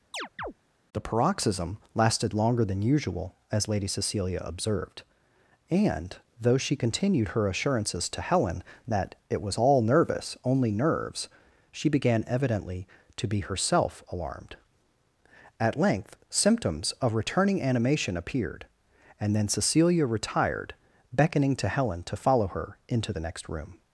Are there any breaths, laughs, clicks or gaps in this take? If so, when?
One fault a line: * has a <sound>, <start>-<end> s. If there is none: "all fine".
* has a chirp, 0.1-0.5 s